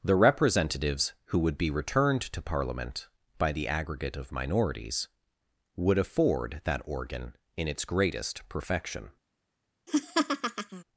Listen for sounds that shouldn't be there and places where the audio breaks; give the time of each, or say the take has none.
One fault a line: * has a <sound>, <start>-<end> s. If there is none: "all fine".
* has a laugh, 9.9-10.8 s